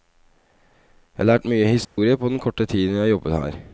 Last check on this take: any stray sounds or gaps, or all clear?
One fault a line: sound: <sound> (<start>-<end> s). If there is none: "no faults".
sound: dropout (1.8-2.0 s)